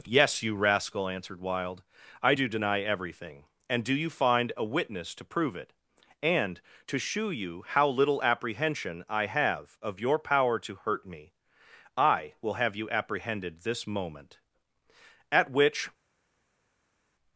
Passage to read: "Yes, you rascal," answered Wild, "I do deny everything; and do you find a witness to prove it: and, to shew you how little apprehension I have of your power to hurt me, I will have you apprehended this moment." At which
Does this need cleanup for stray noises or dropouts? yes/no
no